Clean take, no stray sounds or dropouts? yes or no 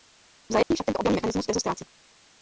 no